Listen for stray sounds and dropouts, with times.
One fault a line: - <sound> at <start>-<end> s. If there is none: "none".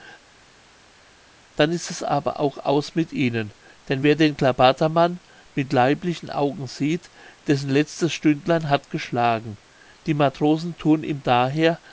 none